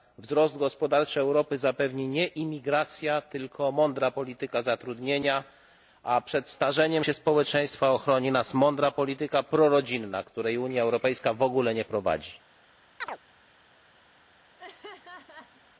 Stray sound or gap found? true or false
true